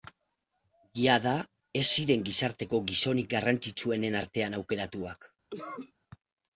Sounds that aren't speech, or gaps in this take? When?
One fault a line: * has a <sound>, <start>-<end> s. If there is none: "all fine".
* has a cough, 5.5-5.9 s